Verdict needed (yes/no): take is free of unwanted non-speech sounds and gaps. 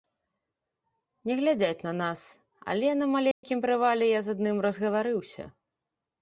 no